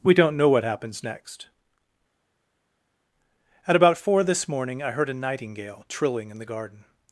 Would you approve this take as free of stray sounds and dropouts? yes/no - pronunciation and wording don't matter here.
yes